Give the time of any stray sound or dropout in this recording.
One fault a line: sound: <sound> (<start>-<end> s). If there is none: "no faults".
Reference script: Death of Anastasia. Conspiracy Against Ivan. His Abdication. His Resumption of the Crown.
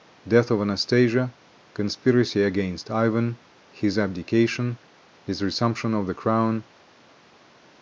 no faults